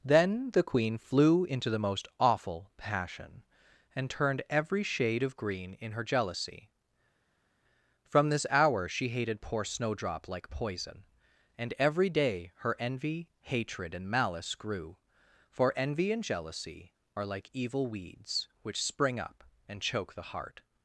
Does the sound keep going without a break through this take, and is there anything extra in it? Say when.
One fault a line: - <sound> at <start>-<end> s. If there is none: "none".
none